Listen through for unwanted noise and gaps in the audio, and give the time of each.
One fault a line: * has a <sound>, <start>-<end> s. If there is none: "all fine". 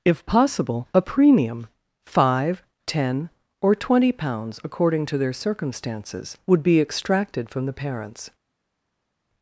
all fine